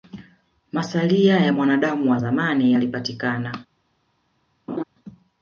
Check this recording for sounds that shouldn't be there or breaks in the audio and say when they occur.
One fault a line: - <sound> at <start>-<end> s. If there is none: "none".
- laugh at 4.7-4.8 s